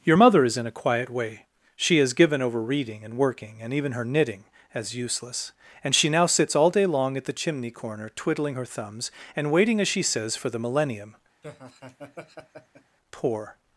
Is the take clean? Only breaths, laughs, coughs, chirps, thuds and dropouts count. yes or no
no